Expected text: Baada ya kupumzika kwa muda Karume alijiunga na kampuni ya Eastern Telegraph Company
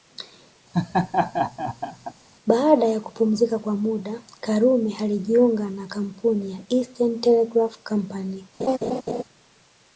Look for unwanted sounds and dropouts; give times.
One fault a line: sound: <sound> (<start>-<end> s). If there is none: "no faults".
sound: laugh (0.7-2.1 s)
sound: laugh (8.6-9.2 s)